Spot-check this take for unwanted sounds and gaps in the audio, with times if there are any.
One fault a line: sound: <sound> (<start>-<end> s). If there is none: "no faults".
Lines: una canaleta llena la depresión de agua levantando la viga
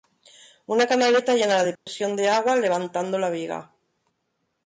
sound: dropout (1.8-1.9 s)